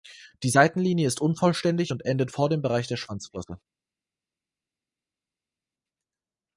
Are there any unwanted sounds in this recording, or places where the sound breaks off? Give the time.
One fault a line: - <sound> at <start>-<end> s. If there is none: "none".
none